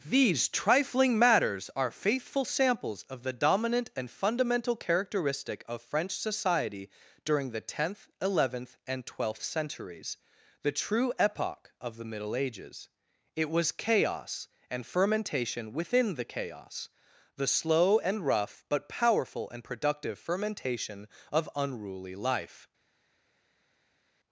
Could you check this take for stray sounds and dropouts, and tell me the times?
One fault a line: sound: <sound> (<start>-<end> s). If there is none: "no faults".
no faults